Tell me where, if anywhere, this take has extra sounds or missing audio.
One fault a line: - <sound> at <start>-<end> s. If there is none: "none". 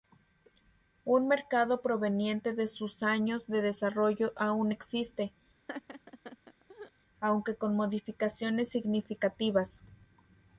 - laugh at 5.7-6.9 s